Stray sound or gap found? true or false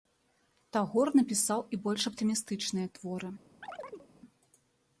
true